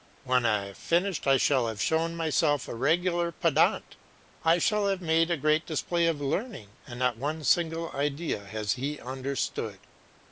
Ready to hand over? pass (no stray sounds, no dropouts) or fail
pass